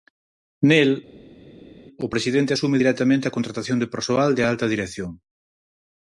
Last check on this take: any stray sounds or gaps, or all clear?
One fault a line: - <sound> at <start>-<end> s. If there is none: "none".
none